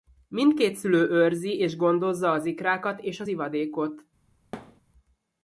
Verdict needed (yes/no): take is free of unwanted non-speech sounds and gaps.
no